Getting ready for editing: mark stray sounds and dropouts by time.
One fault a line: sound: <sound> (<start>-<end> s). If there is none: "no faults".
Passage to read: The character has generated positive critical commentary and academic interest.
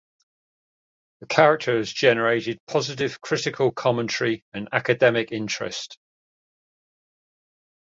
no faults